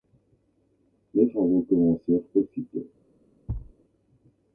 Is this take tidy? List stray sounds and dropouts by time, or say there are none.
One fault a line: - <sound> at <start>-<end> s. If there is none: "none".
- thud at 3.5-3.7 s